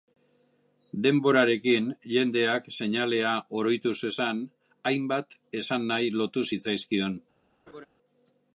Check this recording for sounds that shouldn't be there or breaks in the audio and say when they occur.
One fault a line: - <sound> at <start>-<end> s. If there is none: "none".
- laugh at 7.7-7.9 s